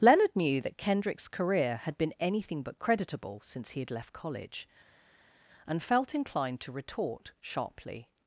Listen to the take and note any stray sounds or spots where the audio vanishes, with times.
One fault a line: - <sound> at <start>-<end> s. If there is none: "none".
none